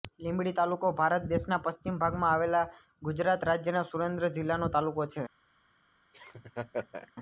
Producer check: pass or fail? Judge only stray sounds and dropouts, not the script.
fail